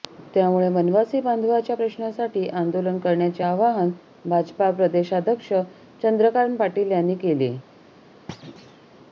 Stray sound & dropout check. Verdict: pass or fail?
fail